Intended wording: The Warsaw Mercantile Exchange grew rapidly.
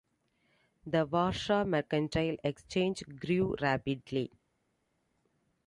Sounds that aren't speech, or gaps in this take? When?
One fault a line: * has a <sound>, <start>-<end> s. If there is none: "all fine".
all fine